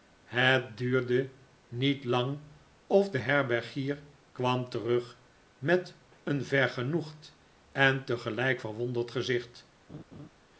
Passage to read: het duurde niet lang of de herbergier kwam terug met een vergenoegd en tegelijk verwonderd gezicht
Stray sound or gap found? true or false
true